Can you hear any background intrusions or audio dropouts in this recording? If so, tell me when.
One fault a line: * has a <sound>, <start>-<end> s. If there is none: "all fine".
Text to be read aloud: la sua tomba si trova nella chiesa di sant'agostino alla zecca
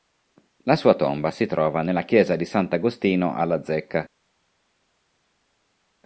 all fine